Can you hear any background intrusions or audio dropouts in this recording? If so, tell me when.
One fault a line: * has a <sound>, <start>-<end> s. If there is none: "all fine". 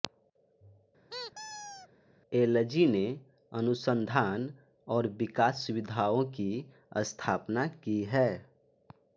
* has a squeak, 1.1-1.9 s